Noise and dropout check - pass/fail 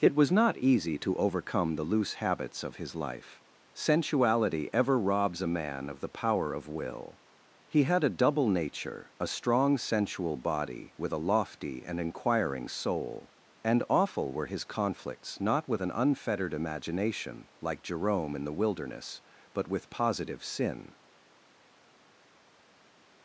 pass